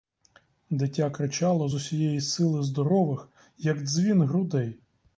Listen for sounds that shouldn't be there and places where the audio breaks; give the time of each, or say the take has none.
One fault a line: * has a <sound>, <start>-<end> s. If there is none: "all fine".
all fine